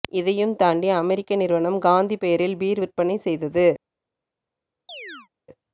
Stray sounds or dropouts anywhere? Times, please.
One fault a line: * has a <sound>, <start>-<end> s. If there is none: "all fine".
* has a chirp, 4.9-5.3 s